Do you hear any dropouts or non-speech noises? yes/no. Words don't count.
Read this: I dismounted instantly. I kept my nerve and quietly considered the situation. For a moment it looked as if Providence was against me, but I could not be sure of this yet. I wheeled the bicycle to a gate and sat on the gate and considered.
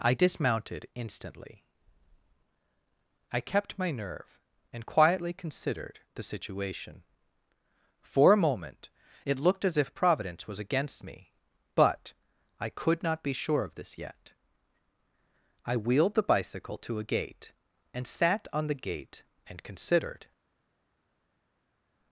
no